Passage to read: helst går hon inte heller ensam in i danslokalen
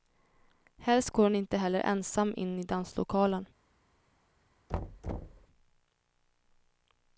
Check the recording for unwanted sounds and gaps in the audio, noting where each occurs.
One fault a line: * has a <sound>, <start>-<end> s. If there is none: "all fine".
* has a thud, 4.7-5.5 s